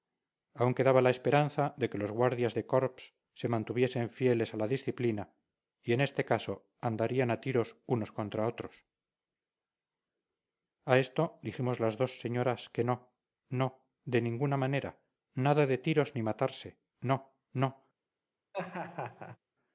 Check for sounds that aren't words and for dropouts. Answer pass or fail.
fail